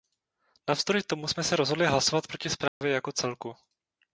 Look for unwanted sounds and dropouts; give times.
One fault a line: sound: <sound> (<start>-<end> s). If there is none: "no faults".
sound: dropout (2.7-2.8 s)